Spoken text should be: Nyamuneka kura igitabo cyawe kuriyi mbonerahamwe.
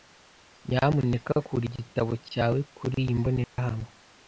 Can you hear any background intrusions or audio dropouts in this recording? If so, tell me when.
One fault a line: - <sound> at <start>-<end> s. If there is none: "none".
- dropout at 3.4-3.6 s